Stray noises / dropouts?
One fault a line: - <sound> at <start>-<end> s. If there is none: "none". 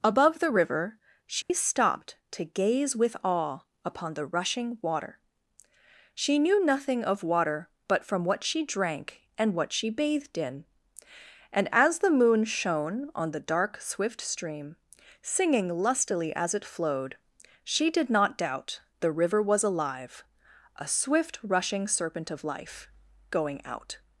- dropout at 1.4-1.5 s